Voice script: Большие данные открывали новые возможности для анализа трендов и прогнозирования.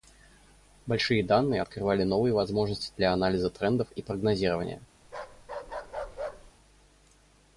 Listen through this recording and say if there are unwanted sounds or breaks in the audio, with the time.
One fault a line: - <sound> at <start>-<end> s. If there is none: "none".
- bark at 5.0-6.5 s